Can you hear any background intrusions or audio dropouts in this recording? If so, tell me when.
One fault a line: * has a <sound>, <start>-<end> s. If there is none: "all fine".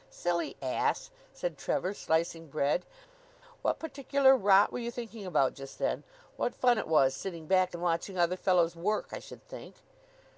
all fine